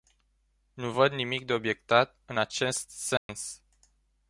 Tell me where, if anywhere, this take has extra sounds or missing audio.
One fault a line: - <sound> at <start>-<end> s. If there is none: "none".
- dropout at 3.2-3.3 s